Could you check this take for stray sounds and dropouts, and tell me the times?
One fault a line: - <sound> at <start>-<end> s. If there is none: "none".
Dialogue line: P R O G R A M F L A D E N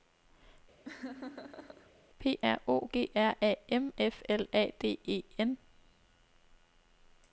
- laugh at 0.8-1.9 s